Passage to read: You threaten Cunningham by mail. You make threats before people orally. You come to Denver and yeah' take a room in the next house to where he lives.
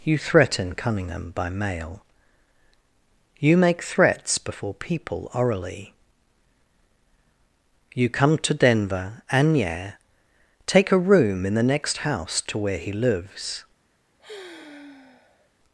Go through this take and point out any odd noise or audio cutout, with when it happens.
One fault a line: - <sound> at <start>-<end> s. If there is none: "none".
- sigh at 14.2-15.5 s